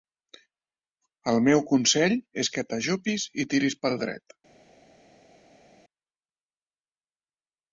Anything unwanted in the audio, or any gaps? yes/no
no